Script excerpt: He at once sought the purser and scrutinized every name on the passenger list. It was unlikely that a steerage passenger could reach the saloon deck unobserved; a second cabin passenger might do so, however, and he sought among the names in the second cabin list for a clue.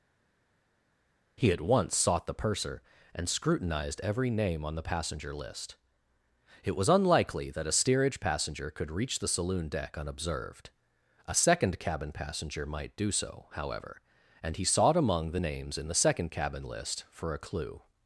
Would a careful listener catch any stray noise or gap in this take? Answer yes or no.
no